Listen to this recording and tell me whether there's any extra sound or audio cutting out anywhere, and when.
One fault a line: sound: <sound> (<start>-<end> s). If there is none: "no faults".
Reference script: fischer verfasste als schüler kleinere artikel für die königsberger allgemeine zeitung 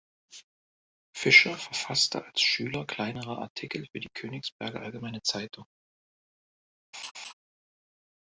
sound: laugh (6.9-7.3 s)